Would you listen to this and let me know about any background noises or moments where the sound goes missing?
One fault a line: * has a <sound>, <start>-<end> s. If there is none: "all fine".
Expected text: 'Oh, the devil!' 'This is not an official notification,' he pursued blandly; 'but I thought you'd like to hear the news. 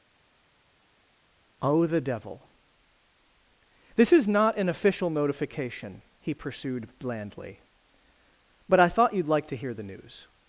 all fine